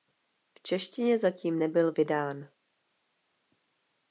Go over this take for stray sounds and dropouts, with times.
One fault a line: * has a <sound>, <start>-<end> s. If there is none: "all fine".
all fine